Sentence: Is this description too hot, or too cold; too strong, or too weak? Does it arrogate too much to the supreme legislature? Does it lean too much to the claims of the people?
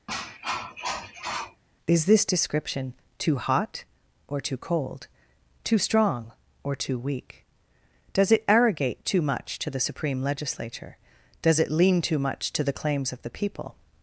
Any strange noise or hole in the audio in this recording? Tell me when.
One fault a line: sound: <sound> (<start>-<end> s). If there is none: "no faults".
sound: cough (0.1-1.6 s)